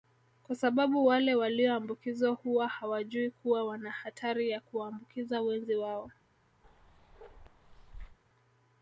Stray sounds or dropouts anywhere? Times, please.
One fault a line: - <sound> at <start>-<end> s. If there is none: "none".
- bark at 6.6-8.2 s